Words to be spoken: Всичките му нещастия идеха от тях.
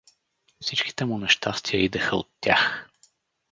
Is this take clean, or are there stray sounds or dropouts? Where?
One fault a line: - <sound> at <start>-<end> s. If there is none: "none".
none